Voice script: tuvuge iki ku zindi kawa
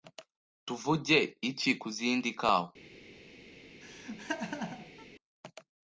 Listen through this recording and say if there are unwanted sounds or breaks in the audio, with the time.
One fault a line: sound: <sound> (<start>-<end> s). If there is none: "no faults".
sound: laugh (3.8-5.1 s)